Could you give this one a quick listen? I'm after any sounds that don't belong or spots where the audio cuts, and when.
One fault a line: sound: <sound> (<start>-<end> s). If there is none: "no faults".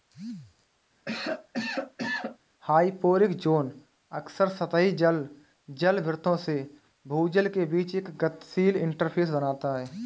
sound: cough (1.1-2.4 s)